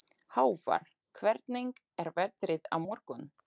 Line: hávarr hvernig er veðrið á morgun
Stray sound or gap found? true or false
false